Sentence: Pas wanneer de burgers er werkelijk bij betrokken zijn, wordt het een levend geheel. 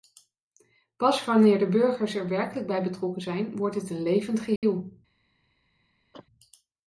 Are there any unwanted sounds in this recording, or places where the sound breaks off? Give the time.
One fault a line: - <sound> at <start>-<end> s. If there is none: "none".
- dropout at 4.6-4.6 s
- cough at 6.1-6.3 s